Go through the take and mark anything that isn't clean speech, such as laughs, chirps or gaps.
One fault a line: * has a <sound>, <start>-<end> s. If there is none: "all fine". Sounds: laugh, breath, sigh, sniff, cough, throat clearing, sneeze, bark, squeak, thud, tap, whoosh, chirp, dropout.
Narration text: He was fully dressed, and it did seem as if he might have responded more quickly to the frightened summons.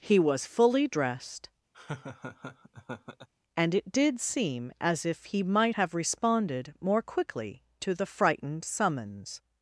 * has a laugh, 1.7-3.3 s